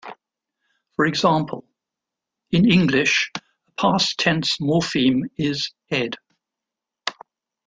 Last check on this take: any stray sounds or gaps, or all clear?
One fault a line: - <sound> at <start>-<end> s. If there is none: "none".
none